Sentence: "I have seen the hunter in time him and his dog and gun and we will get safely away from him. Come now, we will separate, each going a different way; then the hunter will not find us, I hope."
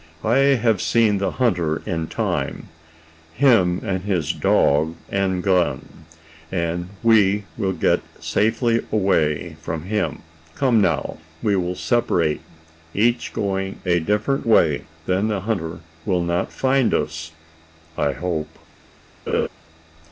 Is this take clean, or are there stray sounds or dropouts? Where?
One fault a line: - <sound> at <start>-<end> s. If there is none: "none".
- laugh at 19.3-19.5 s